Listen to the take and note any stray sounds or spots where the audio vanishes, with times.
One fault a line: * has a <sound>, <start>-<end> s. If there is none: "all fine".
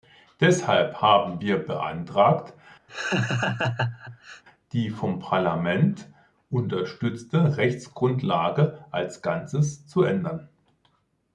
* has a laugh, 2.9-4.4 s